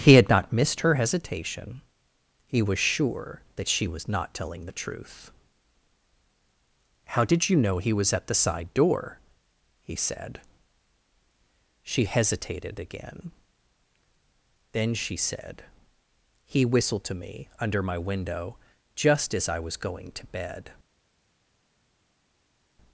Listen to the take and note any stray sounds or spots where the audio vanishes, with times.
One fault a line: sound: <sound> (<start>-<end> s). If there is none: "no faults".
no faults